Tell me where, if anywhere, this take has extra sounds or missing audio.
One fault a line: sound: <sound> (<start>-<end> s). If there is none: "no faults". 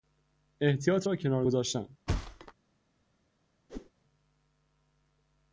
sound: thud (2.1-2.5 s)
sound: whoosh (3.7-3.9 s)